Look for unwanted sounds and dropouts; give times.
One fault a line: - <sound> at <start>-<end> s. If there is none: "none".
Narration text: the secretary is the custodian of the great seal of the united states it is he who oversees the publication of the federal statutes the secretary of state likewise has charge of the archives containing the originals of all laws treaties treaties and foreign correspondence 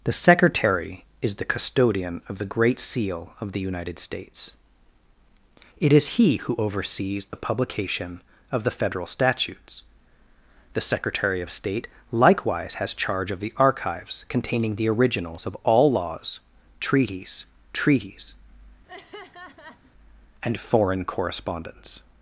- dropout at 7.3-7.3 s
- laugh at 18.9-19.9 s